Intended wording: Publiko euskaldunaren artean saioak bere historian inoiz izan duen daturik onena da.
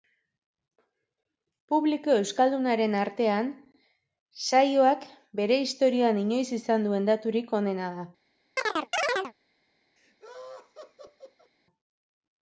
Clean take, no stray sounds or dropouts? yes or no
no